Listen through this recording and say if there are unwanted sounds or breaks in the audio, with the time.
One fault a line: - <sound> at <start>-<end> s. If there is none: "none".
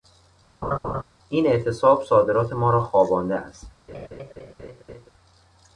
- laugh at 0.6-1.0 s
- laugh at 3.9-5.1 s